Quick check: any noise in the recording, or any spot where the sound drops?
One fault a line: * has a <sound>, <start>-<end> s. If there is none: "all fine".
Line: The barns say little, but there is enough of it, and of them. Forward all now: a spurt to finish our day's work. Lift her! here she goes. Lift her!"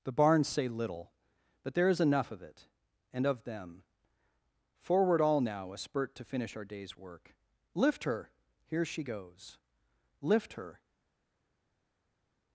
all fine